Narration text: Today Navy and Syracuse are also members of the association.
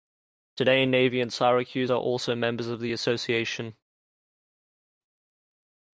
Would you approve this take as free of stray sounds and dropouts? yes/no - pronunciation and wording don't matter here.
yes